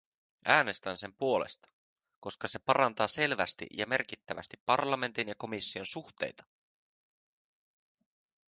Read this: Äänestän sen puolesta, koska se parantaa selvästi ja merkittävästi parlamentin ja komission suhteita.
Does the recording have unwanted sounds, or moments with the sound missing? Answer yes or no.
no